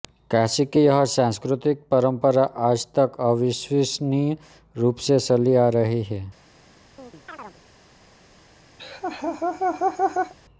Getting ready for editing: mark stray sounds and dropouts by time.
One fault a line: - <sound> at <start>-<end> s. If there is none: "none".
- chirp at 7.0-7.6 s
- laugh at 8.8-10.3 s